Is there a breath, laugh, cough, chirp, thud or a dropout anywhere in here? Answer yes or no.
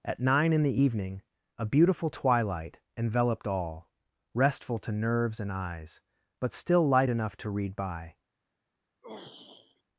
yes